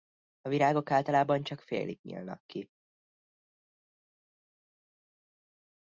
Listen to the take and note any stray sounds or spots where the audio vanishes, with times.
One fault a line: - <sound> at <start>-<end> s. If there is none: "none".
none